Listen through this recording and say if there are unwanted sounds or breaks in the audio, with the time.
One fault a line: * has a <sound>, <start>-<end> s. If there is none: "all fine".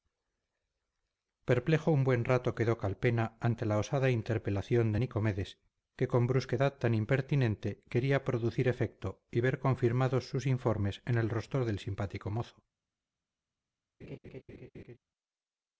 * has a laugh, 14.0-15.0 s